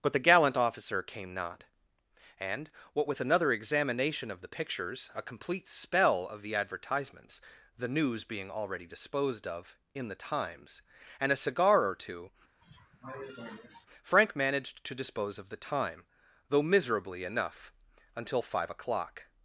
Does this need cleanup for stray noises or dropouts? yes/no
yes